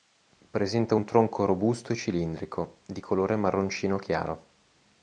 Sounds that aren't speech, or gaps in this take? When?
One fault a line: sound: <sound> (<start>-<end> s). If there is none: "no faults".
no faults